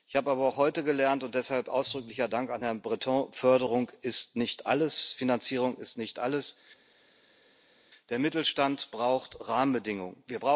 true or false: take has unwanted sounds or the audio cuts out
false